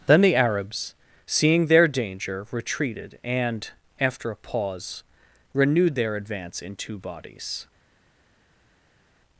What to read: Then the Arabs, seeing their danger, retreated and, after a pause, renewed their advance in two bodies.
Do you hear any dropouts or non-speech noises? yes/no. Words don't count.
no